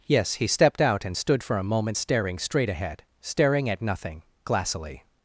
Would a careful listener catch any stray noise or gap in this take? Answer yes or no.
no